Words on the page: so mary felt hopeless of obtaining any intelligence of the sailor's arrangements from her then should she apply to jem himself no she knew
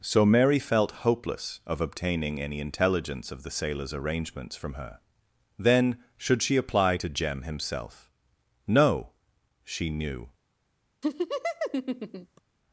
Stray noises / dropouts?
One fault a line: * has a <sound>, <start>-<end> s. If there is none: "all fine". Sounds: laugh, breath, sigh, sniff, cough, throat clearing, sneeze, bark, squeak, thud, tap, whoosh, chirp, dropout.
* has a laugh, 11.0-12.4 s